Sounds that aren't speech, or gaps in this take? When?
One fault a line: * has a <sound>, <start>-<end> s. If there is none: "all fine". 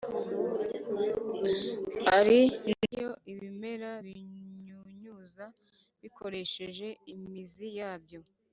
all fine